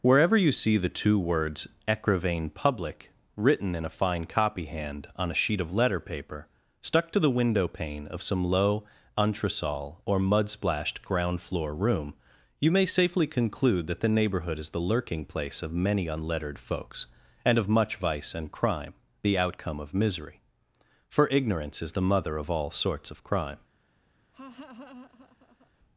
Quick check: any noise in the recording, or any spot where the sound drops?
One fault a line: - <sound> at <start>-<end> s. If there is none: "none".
- laugh at 24.3-25.7 s